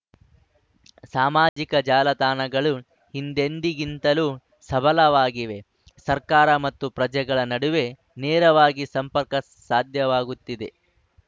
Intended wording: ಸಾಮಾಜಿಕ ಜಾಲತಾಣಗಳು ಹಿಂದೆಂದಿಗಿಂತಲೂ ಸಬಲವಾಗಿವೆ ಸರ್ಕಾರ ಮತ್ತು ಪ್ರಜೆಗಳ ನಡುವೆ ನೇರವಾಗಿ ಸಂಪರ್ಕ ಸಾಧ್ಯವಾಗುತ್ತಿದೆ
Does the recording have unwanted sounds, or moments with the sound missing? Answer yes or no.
yes